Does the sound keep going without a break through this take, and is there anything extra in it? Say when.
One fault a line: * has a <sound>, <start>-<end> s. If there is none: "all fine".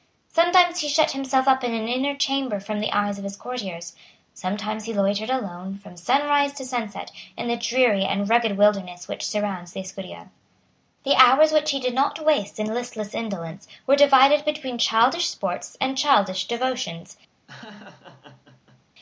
* has a laugh, 17.5-18.8 s